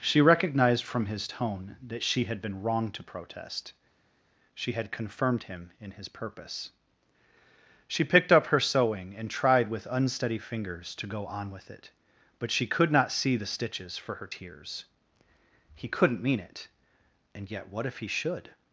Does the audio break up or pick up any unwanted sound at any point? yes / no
no